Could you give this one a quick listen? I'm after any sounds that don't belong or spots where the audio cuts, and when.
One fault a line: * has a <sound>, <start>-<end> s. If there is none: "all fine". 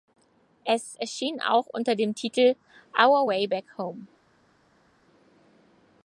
all fine